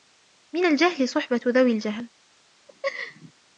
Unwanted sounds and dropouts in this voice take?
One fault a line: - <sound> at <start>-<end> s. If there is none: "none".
- laugh at 2.7-3.3 s